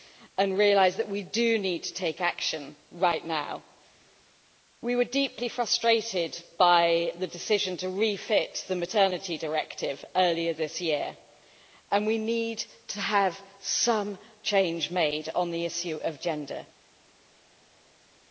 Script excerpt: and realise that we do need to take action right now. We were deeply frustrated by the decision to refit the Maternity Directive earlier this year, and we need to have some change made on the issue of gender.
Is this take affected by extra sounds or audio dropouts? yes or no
no